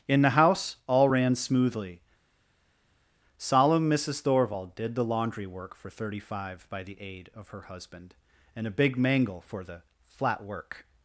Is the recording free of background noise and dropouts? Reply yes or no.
yes